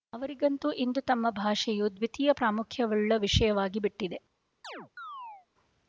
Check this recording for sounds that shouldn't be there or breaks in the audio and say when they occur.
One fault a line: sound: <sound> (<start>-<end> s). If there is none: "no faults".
sound: chirp (4.6-5.5 s)